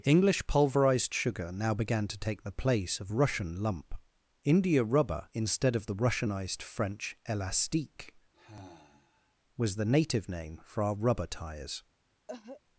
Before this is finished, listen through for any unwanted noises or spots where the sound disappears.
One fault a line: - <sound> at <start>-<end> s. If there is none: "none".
- sigh at 8.3-9.4 s
- cough at 12.3-12.6 s